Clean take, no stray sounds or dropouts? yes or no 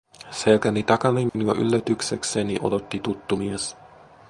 no